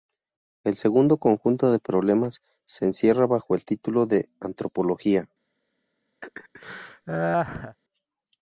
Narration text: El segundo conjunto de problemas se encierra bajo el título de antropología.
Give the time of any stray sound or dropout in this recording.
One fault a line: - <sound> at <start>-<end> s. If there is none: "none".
- laugh at 6.2-7.8 s